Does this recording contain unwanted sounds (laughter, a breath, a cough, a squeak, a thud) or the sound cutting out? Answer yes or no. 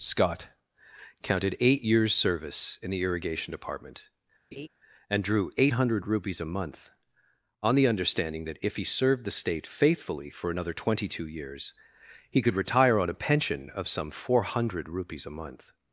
yes